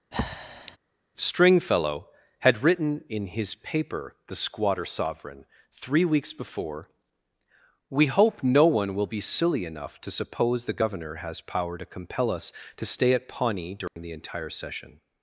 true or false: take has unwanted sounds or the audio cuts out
true